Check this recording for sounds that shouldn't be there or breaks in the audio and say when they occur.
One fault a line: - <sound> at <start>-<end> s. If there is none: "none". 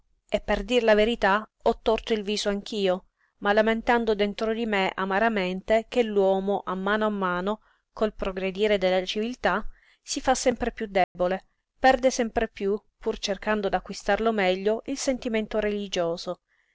- dropout at 11.0-11.2 s